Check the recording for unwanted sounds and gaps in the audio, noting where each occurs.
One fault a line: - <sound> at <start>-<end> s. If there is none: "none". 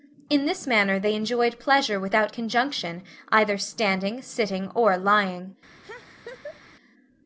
- laugh at 5.8-6.6 s